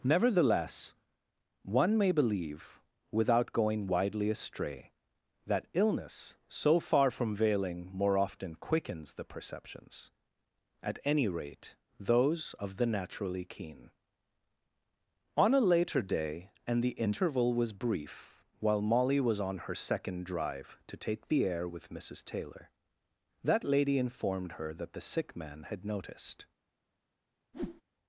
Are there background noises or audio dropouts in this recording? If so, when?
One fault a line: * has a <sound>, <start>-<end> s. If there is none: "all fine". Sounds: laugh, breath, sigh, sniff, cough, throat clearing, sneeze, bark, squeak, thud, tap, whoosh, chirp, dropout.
* has a whoosh, 27.5-27.8 s